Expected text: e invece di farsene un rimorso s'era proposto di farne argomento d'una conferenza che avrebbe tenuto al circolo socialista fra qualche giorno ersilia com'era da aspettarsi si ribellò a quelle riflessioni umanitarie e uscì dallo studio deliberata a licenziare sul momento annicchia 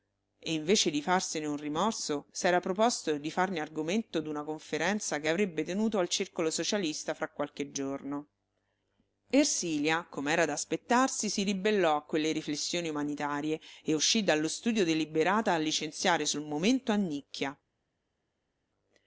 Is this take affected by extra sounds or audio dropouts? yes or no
no